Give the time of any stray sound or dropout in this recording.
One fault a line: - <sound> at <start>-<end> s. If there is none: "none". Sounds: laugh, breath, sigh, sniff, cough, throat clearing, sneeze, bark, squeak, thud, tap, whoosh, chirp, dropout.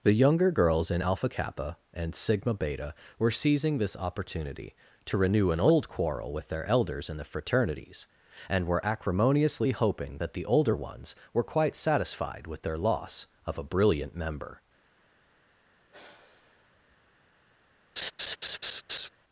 - sigh at 15.9-17.0 s
- laugh at 18.0-19.1 s